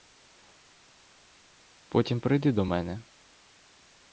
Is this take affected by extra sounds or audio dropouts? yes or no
no